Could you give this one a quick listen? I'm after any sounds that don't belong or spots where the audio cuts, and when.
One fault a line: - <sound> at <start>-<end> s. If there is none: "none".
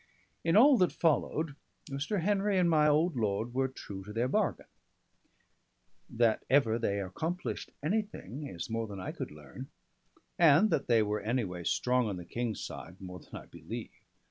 none